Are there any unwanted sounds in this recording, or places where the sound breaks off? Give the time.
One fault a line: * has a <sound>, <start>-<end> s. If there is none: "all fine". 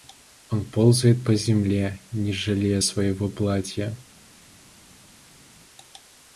all fine